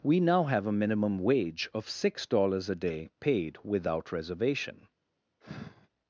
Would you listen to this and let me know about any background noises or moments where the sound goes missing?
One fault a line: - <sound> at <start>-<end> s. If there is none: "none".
- sigh at 5.4-5.9 s